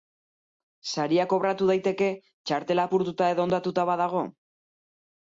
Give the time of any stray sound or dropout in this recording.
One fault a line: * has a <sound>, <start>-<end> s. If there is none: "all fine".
all fine